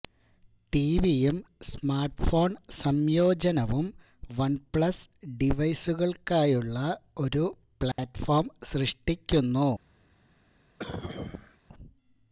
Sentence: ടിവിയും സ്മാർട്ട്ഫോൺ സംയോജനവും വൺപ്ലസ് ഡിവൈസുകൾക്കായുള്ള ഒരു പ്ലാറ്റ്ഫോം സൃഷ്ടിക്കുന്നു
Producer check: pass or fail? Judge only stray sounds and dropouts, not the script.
fail